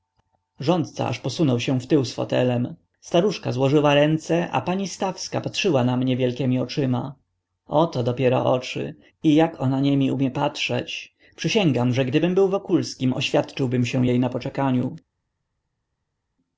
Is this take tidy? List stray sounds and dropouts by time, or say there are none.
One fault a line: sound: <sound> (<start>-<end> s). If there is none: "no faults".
no faults